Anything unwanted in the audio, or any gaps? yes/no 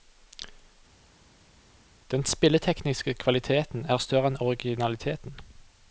no